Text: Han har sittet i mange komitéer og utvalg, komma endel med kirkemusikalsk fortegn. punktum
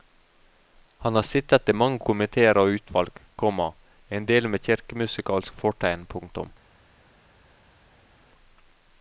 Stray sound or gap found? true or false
false